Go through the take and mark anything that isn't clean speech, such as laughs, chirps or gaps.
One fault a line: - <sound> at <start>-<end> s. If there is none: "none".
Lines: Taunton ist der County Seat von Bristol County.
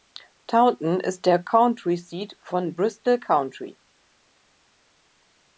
none